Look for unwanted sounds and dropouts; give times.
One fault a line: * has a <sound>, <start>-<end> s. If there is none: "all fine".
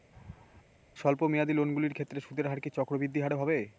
* has a laugh, 0.1-0.6 s